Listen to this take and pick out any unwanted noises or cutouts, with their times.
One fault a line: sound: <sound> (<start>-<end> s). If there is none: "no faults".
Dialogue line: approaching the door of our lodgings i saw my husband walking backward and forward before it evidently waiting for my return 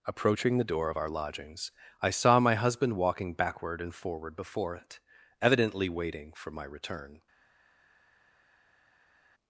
no faults